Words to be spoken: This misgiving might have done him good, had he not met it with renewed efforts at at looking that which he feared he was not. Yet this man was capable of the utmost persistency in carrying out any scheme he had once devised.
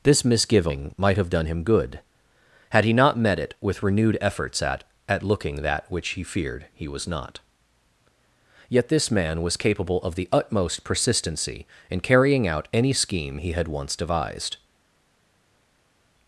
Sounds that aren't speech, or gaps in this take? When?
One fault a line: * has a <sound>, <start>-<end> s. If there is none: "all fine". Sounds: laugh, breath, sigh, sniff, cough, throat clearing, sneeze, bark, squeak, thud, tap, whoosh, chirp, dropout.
all fine